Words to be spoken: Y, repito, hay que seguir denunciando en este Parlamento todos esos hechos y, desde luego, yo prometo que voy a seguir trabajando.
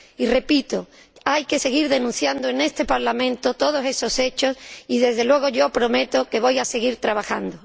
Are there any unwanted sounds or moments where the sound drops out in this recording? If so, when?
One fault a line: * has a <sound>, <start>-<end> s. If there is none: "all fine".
all fine